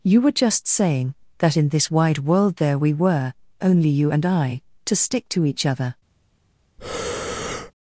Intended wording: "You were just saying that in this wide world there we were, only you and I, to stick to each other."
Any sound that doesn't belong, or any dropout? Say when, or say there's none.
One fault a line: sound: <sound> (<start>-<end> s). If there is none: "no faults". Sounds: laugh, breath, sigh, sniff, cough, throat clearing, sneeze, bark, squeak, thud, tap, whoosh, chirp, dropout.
sound: breath (6.8-7.7 s)